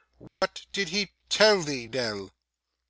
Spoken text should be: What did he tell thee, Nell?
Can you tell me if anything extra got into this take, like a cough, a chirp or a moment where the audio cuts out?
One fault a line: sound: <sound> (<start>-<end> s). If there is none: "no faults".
sound: dropout (0.3-0.4 s)